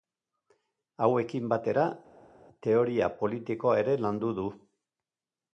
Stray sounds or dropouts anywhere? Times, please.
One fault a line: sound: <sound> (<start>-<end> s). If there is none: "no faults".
no faults